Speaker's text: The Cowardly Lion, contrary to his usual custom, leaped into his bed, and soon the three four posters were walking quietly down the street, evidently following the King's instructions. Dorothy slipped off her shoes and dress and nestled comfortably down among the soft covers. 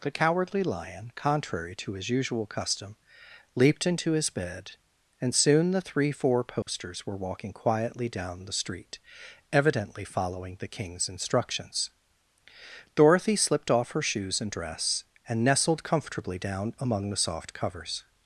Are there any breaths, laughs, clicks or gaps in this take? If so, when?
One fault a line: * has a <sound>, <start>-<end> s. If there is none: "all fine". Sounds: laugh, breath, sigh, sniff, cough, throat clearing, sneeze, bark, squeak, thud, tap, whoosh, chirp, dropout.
* has a dropout, 6.6-6.7 s